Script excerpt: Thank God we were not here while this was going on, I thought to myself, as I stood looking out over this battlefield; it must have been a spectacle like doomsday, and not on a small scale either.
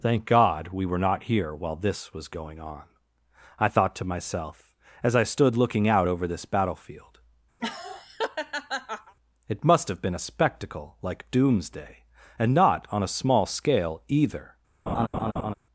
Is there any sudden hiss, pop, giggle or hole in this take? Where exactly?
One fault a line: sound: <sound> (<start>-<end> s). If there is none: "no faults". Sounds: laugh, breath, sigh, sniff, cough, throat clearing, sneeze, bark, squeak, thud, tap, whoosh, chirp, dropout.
sound: laugh (7.6-9.1 s)
sound: laugh (14.9-15.5 s)